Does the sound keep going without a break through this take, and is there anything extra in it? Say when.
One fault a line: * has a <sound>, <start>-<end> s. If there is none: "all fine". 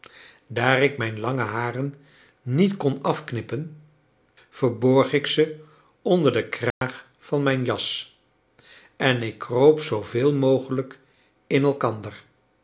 * has a dropout, 6.7-6.8 s